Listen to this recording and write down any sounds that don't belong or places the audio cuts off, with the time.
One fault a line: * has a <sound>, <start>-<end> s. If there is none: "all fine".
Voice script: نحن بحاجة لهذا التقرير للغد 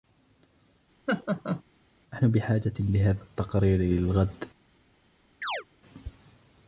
* has a laugh, 1.1-1.6 s
* has a chirp, 5.4-5.6 s